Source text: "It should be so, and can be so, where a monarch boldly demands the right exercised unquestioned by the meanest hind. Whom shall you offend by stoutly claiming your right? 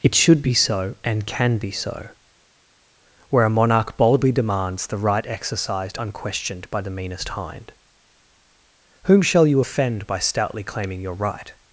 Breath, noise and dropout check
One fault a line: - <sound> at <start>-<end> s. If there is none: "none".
none